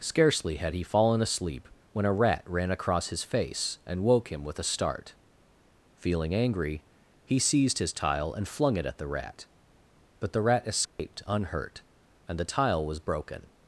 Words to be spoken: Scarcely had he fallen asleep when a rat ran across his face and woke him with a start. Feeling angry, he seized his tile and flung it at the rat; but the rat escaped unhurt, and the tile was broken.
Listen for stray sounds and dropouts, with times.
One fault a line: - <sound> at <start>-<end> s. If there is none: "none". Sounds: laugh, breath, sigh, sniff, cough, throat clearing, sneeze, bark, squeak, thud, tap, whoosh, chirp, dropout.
- dropout at 10.9-11.0 s